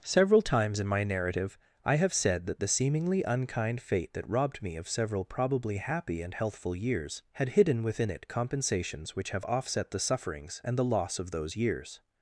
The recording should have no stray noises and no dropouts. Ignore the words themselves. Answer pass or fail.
pass